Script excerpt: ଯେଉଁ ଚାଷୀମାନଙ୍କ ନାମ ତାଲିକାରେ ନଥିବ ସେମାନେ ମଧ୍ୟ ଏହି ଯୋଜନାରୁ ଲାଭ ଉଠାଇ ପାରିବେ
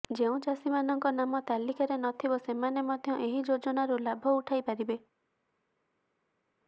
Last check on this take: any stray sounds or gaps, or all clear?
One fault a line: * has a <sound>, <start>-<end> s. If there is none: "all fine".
all fine